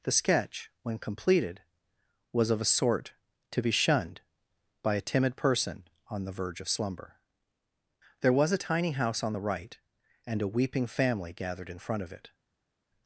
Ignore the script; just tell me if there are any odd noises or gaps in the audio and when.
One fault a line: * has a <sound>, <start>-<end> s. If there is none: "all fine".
all fine